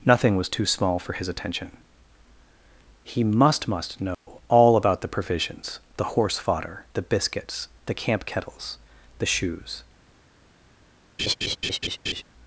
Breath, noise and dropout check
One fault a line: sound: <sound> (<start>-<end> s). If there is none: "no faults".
sound: dropout (4.1-4.3 s)
sound: laugh (11.2-12.2 s)